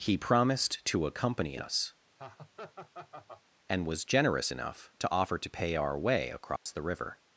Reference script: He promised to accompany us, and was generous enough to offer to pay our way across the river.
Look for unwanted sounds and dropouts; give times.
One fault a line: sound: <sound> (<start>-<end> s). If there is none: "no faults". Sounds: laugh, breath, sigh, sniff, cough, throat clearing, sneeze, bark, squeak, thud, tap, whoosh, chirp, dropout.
sound: laugh (2.2-3.4 s)
sound: dropout (6.6-6.7 s)